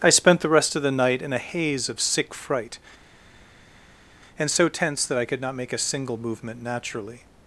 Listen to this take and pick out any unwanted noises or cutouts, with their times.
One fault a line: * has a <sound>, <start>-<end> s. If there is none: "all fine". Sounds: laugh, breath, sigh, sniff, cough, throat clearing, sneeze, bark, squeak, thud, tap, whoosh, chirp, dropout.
all fine